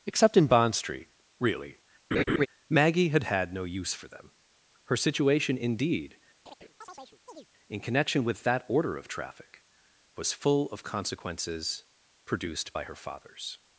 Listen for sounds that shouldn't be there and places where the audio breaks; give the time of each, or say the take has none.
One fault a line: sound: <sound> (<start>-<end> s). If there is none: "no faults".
sound: laugh (2.1-2.5 s)
sound: chirp (6.5-7.5 s)